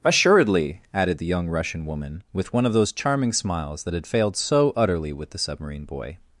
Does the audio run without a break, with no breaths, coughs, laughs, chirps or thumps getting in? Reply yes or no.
yes